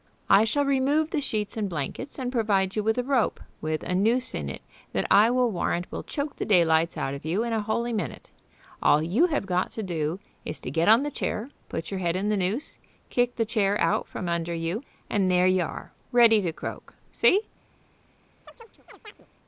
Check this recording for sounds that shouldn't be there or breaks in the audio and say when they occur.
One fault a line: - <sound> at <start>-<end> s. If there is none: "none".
- chirp at 18.5-19.3 s